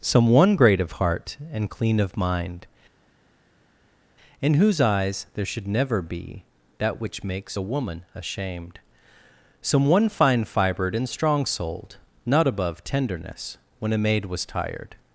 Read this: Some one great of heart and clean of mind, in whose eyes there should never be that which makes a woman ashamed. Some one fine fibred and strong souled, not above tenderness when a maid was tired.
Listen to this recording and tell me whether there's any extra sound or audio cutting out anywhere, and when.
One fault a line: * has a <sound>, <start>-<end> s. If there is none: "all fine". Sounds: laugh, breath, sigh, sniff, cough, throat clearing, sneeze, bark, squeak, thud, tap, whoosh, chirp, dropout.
all fine